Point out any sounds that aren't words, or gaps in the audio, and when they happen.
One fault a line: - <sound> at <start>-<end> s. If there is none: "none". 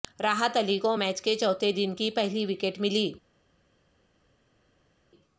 none